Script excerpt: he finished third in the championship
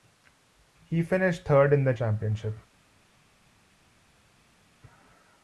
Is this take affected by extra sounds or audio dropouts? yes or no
no